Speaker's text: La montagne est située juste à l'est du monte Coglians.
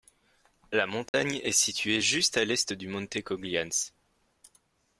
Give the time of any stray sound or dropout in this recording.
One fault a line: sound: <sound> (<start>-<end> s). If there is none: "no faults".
sound: dropout (1.1-1.1 s)